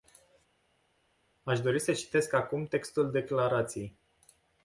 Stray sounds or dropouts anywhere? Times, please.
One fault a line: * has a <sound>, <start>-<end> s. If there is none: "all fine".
all fine